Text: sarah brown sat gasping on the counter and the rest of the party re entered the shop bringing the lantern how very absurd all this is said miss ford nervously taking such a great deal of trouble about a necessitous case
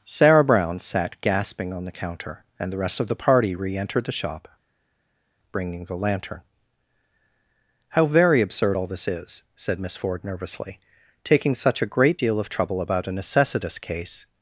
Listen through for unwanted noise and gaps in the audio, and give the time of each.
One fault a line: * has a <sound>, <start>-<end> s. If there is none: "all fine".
all fine